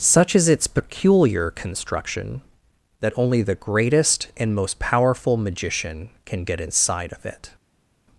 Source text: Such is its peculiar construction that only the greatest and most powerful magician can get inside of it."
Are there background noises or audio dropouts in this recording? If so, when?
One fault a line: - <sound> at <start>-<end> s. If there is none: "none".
none